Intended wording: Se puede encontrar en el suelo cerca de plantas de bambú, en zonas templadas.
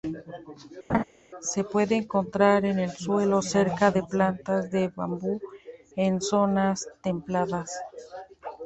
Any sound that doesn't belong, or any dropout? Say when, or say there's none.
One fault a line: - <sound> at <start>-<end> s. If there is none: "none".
- laugh at 0.9-1.0 s